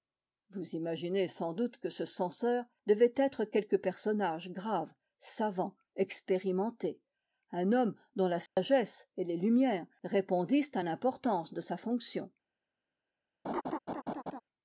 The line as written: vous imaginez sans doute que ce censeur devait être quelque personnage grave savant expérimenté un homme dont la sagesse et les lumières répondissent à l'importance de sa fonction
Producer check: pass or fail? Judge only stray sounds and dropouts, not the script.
fail